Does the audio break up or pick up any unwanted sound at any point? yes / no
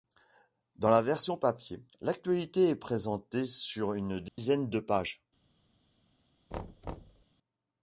yes